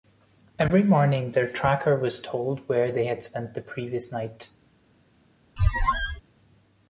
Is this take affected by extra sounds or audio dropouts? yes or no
yes